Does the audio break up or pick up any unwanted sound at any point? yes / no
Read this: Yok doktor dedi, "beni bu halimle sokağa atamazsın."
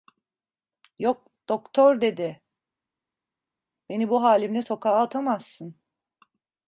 no